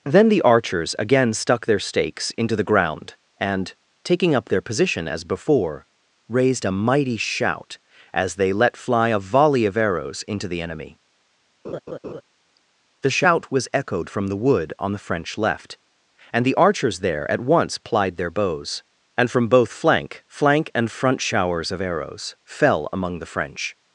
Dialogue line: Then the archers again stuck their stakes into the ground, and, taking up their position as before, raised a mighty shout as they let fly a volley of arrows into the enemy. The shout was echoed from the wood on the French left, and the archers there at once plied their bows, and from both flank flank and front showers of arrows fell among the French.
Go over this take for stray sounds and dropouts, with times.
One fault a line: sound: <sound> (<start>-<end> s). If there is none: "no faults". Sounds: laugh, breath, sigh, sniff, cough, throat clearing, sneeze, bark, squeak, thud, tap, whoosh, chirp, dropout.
sound: laugh (11.6-12.2 s)